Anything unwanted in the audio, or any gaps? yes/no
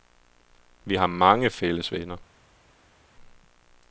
no